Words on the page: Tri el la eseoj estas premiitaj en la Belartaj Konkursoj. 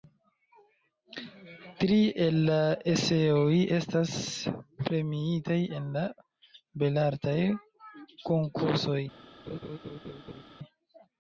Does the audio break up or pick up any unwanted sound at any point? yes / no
yes